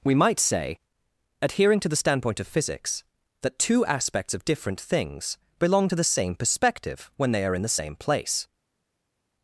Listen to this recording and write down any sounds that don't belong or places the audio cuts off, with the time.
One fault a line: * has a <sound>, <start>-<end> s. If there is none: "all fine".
all fine